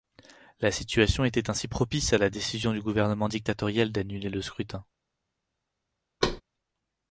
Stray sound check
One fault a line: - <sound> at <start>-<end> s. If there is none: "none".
- thud at 6.2-6.4 s